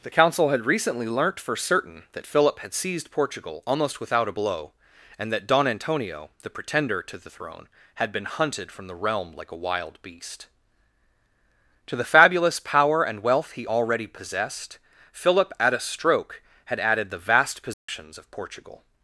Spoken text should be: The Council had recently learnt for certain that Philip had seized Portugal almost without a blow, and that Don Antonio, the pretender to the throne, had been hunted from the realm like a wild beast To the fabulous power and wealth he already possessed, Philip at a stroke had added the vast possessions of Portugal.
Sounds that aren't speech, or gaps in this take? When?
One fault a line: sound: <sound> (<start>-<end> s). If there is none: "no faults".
sound: dropout (17.7-17.9 s)